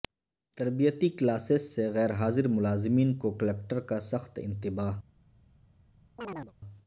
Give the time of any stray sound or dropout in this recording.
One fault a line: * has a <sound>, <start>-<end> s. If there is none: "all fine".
* has a chirp, 6.2-6.5 s